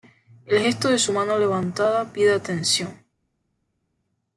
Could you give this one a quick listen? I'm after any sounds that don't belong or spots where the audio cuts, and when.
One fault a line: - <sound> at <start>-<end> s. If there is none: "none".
none